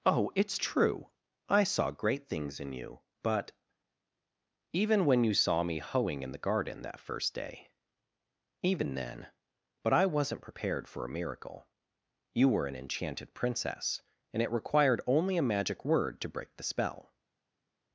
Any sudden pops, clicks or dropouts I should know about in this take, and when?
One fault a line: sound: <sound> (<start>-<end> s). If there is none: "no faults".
no faults